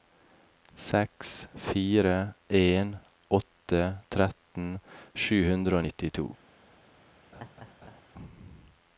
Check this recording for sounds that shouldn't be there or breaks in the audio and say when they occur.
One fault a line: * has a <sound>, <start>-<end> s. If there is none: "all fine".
* has a laugh, 7.3-8.0 s